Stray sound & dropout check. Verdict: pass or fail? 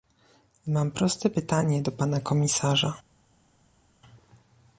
pass